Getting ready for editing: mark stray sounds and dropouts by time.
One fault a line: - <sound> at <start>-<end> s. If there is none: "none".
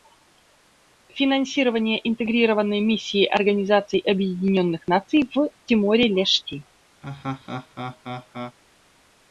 - laugh at 7.0-8.6 s